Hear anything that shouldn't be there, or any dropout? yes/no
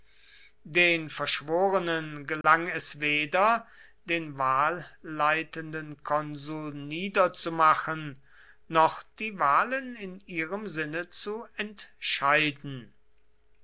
yes